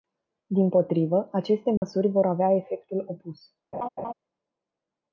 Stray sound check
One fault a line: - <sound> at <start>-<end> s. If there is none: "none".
- dropout at 1.8-1.8 s
- laugh at 3.7-4.1 s